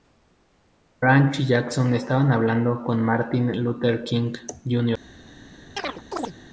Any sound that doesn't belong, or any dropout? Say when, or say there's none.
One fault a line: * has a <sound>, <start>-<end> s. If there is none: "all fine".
* has a chirp, 5.8-6.3 s